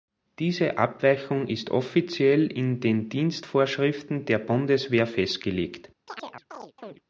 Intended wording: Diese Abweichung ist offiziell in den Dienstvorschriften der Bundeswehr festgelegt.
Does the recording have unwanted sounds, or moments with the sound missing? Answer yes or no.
yes